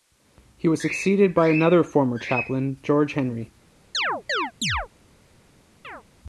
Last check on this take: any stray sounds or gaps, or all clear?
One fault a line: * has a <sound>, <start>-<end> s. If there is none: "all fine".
* has a chirp, 3.9-4.9 s
* has a chirp, 5.8-6.0 s